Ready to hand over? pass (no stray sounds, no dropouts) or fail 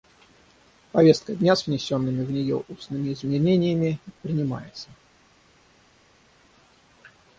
pass